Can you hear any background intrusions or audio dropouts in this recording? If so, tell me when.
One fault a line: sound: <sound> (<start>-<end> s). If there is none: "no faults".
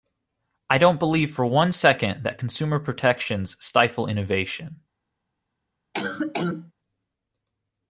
sound: cough (5.9-6.7 s)